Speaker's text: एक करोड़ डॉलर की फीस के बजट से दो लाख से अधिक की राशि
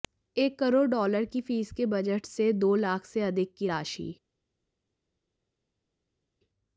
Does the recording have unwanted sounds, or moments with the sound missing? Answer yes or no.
no